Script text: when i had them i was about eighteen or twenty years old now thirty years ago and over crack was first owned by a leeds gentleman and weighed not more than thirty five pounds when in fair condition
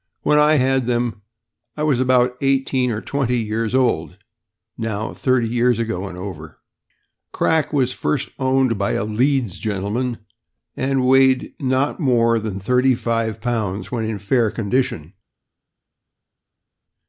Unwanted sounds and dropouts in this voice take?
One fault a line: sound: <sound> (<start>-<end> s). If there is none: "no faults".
no faults